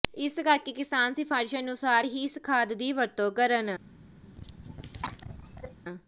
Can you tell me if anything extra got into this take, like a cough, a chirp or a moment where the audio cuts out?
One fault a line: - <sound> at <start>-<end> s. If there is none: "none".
- cough at 4.2-5.8 s